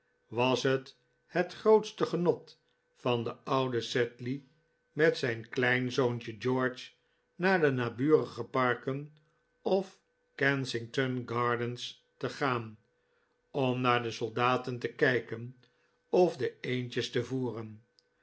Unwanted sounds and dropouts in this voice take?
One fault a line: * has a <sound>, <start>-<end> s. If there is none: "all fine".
all fine